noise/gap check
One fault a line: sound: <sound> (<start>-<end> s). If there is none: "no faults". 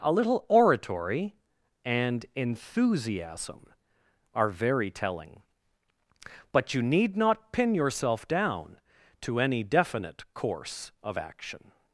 no faults